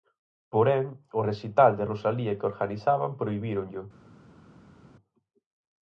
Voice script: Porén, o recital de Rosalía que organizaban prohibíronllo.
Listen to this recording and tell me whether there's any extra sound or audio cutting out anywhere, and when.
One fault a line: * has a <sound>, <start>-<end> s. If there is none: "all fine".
all fine